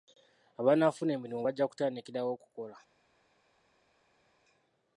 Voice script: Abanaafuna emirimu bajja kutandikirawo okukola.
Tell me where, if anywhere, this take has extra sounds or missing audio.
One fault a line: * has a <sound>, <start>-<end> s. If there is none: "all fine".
all fine